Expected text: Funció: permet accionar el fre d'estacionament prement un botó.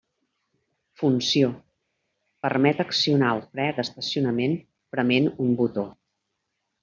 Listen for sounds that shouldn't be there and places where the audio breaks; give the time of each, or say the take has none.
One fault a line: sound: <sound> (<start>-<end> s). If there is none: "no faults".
no faults